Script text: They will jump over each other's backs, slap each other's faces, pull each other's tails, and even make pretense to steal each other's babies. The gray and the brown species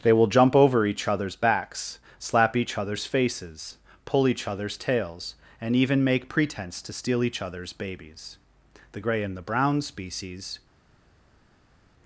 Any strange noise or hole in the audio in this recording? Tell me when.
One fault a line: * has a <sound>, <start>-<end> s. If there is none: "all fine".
all fine